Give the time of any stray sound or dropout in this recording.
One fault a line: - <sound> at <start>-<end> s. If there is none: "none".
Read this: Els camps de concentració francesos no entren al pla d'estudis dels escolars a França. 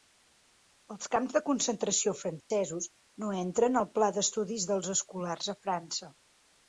- dropout at 2.4-2.5 s